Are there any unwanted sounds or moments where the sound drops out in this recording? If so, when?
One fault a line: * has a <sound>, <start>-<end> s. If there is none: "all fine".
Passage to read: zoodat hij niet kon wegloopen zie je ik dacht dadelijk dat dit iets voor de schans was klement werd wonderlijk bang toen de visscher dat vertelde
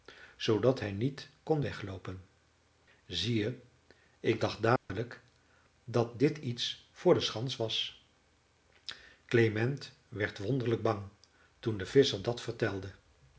* has a dropout, 4.8-4.9 s